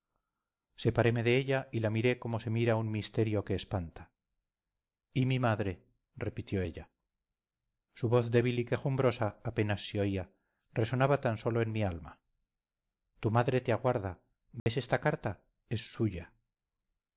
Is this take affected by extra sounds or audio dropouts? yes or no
yes